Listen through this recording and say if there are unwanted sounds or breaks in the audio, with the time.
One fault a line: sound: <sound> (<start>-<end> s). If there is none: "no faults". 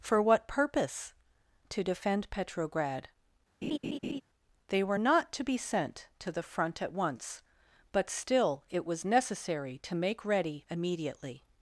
sound: laugh (3.6-4.2 s)